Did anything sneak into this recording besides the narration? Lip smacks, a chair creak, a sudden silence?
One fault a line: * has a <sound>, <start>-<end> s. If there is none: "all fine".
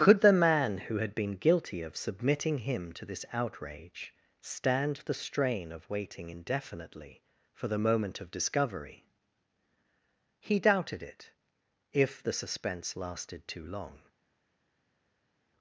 all fine